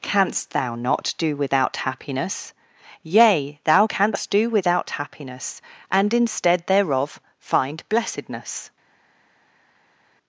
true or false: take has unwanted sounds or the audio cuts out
false